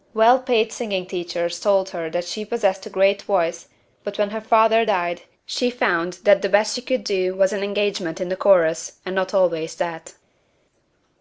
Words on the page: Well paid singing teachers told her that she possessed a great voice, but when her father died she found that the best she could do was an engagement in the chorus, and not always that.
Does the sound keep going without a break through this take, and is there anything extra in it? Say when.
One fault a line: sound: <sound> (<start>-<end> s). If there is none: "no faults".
no faults